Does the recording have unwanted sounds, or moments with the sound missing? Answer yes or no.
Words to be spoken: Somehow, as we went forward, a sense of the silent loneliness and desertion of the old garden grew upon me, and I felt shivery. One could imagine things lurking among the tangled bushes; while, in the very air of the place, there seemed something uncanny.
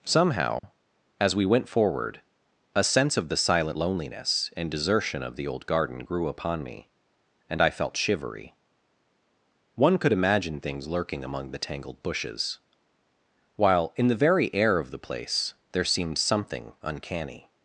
yes